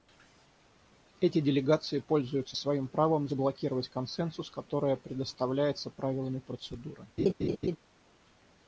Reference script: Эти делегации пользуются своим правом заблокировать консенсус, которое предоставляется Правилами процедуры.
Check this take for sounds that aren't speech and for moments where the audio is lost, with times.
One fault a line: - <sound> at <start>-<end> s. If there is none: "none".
- laugh at 7.2-7.8 s